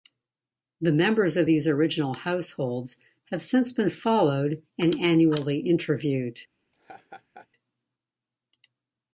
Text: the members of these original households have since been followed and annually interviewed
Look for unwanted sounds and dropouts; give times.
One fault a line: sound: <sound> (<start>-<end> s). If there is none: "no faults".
sound: laugh (6.7-7.5 s)